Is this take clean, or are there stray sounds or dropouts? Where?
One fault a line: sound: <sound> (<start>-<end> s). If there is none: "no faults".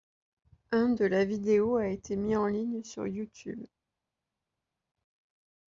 no faults